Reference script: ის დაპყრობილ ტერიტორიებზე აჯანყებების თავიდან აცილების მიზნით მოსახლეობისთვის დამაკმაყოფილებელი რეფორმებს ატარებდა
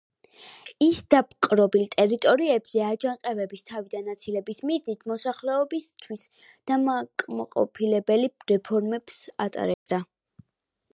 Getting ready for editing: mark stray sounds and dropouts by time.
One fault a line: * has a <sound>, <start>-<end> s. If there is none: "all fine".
* has a dropout, 9.7-9.9 s